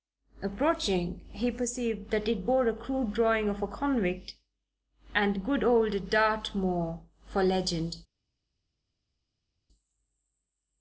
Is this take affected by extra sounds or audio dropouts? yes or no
no